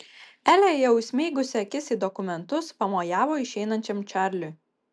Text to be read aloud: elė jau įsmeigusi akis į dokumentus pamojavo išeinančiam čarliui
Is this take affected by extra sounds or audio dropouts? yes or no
no